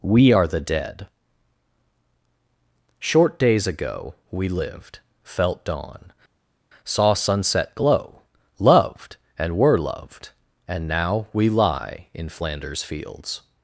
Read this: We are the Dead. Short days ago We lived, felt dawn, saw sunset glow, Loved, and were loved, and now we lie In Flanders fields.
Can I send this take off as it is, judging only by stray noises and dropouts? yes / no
yes